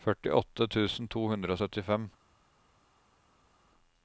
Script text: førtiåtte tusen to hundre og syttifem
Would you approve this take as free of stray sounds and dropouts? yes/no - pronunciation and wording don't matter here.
yes